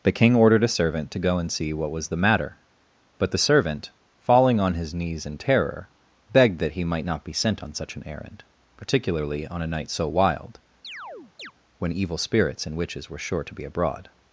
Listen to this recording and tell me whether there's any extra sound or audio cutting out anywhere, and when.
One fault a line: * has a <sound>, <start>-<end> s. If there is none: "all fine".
* has a chirp, 10.8-11.5 s